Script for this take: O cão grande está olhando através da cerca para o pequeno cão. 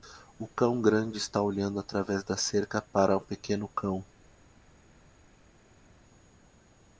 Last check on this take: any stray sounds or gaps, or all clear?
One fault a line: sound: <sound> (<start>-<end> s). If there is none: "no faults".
no faults